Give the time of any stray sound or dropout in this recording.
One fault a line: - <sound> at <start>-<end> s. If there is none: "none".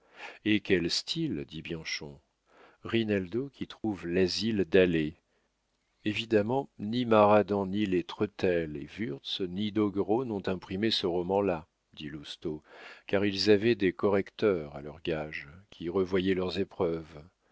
- dropout at 3.8-3.8 s